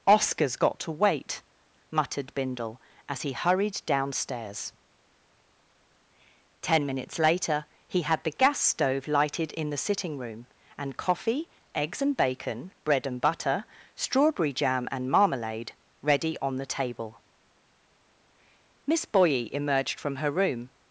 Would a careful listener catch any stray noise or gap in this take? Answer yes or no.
no